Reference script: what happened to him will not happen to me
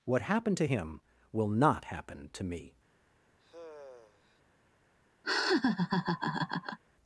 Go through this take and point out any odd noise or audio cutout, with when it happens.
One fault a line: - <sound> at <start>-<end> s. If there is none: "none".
- sigh at 3.4-4.4 s
- laugh at 5.2-6.8 s